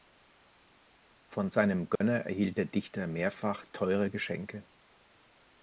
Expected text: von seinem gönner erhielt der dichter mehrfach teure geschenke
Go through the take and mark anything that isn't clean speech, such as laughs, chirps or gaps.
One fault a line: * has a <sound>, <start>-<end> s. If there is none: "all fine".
* has a dropout, 2.0-2.0 s